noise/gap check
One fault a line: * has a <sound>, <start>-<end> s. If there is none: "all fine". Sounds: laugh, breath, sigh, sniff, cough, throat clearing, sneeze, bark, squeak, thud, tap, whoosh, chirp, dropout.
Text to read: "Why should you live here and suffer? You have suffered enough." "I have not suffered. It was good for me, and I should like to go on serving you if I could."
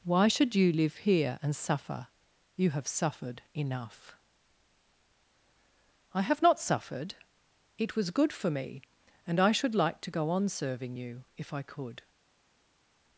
all fine